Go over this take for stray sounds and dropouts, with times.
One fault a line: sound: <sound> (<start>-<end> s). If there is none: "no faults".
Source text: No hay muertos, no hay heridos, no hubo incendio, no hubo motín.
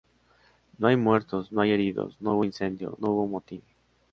no faults